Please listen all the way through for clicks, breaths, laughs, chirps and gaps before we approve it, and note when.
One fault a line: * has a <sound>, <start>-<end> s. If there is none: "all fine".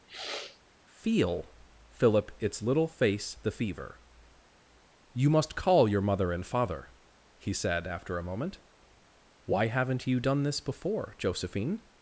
* has a sniff, 0.1-0.6 s